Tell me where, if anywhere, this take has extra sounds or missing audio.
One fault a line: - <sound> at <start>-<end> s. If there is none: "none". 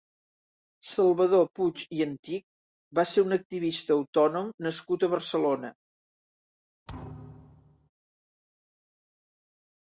- thud at 6.9-7.9 s